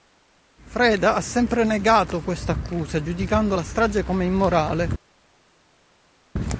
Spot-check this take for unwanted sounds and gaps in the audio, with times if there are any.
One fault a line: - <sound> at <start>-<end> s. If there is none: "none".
none